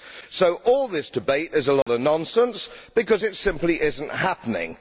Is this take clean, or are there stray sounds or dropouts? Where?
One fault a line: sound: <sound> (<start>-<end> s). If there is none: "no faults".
sound: dropout (1.8-1.9 s)